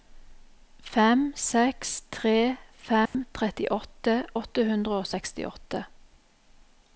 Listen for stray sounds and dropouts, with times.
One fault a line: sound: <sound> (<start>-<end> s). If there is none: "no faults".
sound: dropout (3.1-3.1 s)